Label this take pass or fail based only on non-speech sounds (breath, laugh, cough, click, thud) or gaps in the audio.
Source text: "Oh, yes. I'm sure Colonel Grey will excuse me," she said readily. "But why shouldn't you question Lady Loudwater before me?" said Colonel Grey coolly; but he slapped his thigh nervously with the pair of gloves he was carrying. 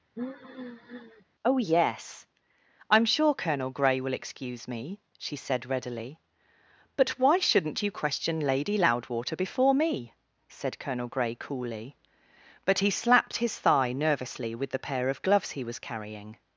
fail